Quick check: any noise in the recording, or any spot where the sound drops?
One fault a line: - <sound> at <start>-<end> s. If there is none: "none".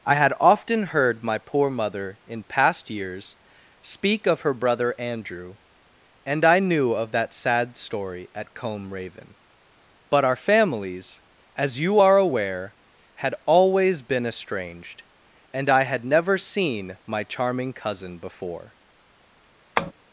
- tap at 19.8-19.9 s